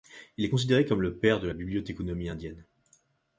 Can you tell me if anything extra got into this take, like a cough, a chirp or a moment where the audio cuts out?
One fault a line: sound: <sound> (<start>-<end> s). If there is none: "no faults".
no faults